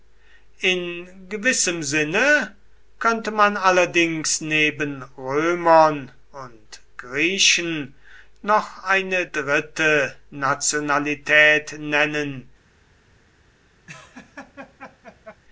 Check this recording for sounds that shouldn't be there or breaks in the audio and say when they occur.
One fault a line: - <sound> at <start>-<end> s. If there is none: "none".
- laugh at 13.9-15.4 s